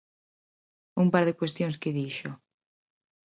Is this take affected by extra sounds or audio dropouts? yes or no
no